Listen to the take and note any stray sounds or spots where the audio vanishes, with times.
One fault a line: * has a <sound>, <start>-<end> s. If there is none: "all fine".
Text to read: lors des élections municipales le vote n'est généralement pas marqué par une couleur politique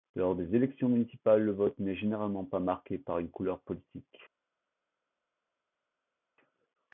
all fine